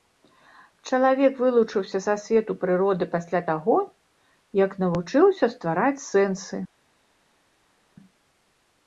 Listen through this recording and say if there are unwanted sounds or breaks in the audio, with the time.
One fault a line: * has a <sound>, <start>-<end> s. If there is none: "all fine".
all fine